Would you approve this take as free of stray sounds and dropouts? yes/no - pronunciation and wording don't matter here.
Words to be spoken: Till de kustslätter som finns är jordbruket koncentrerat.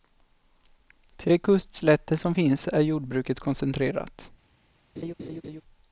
no